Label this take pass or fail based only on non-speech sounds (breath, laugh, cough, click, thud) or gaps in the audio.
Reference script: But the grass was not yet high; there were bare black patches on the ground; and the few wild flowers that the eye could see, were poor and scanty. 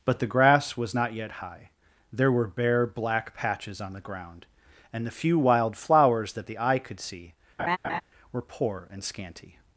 fail